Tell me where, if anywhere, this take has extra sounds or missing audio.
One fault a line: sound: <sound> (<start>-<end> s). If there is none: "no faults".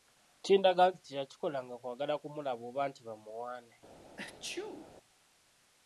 sound: sneeze (4.2-4.9 s)